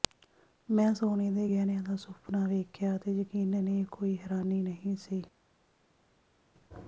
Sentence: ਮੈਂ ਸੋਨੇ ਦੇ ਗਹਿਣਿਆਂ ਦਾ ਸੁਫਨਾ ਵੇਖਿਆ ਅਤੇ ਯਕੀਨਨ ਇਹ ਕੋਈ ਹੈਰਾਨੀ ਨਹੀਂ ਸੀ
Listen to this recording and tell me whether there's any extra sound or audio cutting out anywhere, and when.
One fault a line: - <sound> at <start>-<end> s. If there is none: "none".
none